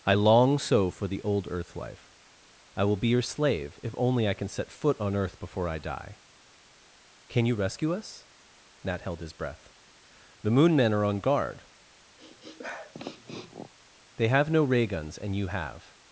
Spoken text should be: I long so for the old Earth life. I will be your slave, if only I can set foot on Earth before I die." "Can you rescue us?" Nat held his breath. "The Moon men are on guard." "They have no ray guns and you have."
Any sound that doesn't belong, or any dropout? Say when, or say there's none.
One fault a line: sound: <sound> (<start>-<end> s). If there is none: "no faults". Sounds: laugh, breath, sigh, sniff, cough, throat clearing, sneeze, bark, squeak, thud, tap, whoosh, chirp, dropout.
sound: sniff (12.2-13.7 s)